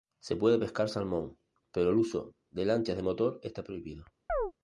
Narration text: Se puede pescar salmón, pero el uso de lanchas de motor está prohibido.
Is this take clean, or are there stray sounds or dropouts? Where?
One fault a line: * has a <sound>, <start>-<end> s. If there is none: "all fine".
* has a chirp, 4.3-4.5 s